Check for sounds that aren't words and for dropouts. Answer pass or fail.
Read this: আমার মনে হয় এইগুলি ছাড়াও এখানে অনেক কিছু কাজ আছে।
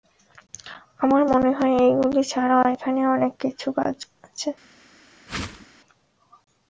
fail